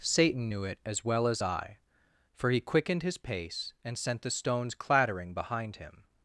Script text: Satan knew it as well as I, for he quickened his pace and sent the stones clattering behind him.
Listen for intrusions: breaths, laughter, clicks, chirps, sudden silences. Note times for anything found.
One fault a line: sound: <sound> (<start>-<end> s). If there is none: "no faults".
no faults